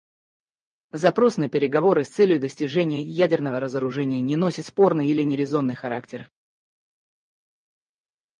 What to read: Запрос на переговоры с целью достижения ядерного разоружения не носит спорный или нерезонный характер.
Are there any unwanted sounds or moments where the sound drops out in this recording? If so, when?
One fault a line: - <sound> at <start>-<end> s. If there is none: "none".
none